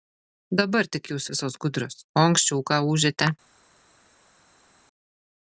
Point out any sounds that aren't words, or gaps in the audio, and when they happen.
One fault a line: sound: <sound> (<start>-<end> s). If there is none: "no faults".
no faults